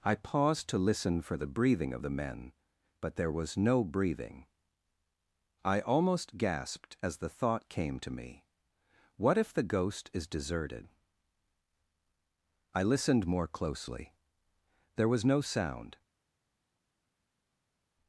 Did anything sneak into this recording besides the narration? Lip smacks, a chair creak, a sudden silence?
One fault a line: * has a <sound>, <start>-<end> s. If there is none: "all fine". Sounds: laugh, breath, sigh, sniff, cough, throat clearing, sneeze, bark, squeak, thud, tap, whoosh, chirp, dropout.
all fine